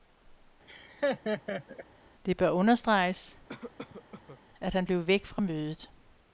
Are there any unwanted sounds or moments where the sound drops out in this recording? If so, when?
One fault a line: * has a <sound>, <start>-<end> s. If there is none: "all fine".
* has a laugh, 0.7-1.9 s
* has a cough, 3.5-4.4 s